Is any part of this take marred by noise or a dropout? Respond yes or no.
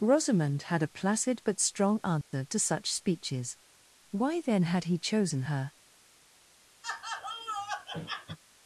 yes